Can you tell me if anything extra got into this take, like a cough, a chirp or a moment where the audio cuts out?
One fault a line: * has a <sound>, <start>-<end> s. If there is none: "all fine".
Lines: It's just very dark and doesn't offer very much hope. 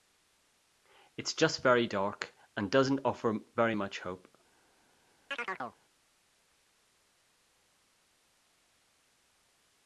* has a chirp, 5.3-5.8 s